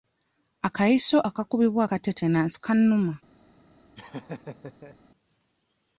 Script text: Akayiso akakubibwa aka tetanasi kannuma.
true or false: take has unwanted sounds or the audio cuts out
true